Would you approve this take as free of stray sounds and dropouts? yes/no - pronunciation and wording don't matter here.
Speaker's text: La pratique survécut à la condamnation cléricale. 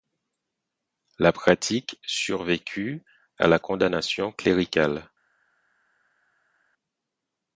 yes